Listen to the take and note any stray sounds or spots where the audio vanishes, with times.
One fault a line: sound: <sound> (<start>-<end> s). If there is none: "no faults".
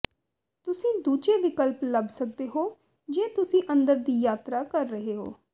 no faults